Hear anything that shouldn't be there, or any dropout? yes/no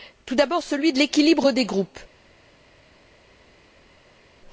no